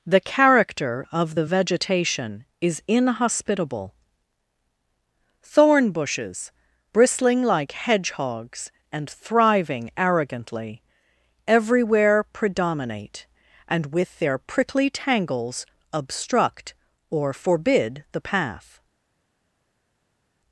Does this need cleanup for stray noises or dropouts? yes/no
no